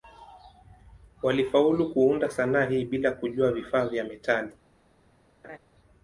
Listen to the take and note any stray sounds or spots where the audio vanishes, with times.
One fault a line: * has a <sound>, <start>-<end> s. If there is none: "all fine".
* has a laugh, 5.4-5.6 s